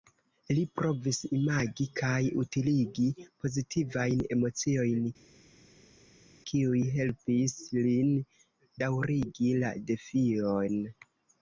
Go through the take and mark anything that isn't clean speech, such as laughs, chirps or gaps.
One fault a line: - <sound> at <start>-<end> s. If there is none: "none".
none